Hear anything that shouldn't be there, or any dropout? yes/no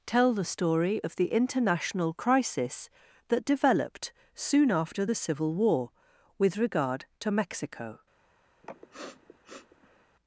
yes